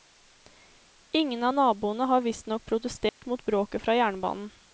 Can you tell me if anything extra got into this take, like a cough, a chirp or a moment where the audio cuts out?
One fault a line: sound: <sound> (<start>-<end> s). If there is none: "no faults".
sound: dropout (3.1-3.2 s)